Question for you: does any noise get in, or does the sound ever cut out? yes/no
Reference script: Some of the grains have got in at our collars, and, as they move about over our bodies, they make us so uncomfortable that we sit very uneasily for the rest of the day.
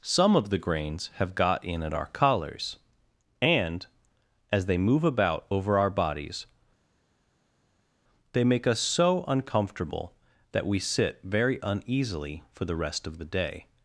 no